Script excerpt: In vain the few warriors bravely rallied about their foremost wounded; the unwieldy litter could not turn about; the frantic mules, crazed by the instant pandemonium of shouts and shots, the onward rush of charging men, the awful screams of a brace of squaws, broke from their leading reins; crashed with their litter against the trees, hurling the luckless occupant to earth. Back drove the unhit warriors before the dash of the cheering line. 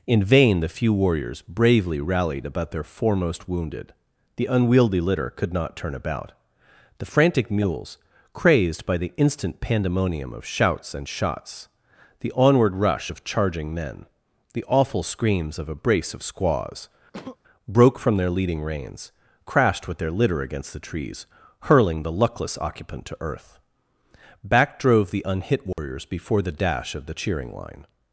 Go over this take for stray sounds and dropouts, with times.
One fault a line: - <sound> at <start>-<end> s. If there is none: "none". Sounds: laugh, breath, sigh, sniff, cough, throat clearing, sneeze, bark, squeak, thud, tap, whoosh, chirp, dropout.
- sneeze at 17.1-17.4 s
- dropout at 25.7-25.8 s